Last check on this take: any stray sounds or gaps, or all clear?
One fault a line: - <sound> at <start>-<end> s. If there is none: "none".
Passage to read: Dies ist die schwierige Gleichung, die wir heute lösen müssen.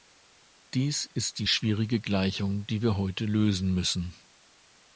none